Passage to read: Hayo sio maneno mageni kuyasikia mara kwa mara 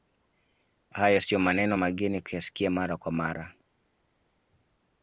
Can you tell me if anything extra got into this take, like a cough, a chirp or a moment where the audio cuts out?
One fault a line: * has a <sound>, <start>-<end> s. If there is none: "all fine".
all fine